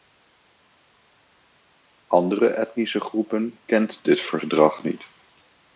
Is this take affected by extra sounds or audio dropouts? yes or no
no